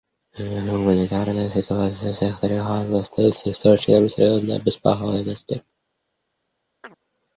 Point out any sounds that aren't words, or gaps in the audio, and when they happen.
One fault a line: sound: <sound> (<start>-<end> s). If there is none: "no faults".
sound: chirp (6.8-7.0 s)